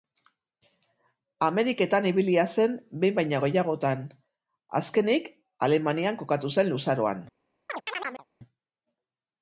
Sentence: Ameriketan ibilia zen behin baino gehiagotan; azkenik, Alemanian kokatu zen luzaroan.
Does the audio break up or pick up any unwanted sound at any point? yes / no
yes